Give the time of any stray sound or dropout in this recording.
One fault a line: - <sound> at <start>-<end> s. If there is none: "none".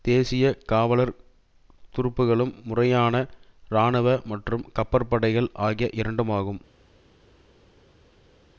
none